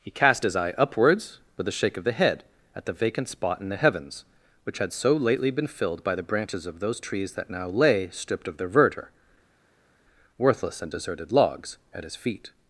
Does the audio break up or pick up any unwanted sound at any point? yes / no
no